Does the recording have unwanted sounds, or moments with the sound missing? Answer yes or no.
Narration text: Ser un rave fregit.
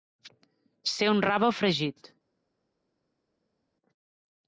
no